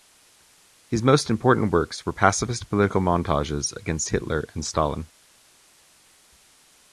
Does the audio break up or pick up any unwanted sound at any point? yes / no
no